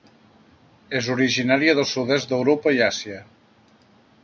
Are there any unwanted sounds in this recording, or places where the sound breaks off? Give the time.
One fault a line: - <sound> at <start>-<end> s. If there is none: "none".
none